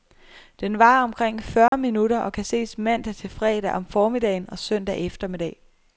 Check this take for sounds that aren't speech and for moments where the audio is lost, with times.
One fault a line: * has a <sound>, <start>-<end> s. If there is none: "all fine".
* has a dropout, 1.7-1.7 s